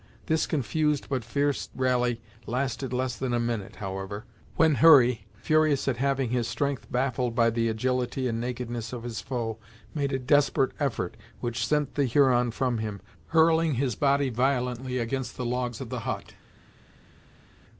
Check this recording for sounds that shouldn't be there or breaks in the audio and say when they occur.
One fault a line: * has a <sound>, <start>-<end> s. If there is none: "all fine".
all fine